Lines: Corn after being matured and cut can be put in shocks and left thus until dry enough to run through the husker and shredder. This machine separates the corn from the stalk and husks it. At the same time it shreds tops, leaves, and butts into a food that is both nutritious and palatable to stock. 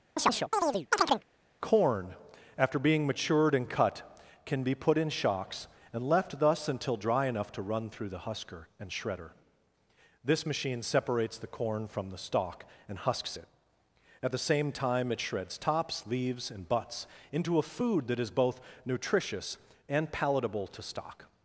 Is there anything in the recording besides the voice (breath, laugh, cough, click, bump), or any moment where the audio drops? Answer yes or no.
yes